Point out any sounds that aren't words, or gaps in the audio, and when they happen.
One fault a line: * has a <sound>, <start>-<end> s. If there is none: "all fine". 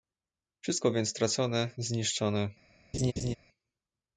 * has a laugh, 2.9-3.4 s